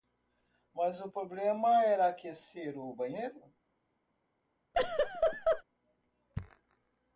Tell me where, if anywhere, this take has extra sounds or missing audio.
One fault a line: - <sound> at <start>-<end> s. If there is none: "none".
- laugh at 4.7-5.6 s